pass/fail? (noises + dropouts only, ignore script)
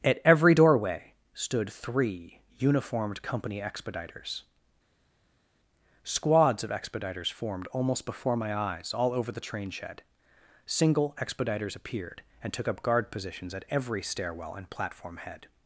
pass